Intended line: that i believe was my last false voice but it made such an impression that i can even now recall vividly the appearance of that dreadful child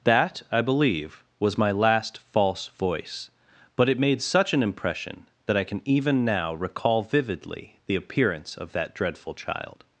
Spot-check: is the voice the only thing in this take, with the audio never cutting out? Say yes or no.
yes